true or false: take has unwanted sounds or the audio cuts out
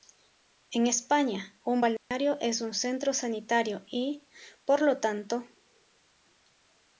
true